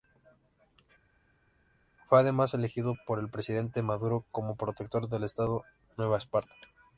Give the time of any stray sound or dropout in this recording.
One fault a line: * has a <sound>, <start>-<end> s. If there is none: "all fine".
all fine